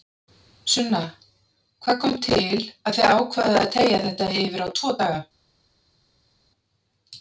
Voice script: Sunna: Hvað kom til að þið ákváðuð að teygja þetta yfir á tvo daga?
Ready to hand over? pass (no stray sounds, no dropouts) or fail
pass